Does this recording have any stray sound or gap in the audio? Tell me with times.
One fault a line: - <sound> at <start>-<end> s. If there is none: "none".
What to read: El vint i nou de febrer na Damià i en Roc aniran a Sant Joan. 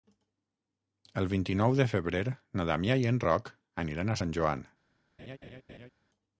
- laugh at 5.2-5.9 s